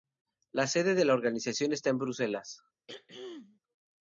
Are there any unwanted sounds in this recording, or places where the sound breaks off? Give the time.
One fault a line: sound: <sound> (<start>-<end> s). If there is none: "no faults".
sound: throat clearing (2.9-3.6 s)